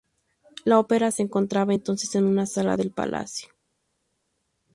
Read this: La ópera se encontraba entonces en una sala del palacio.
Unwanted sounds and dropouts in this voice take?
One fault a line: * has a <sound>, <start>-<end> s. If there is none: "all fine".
all fine